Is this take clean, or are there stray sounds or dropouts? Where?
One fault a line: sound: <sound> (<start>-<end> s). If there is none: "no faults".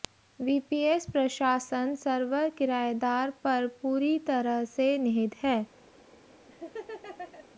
sound: laugh (6.5-7.5 s)